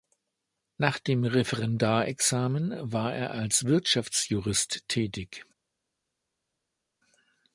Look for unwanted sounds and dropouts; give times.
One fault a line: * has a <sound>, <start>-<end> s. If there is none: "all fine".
all fine